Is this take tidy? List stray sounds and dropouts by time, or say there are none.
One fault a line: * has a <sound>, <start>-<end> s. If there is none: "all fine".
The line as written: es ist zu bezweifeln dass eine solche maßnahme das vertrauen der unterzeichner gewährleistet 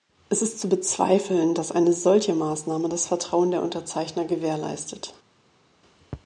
all fine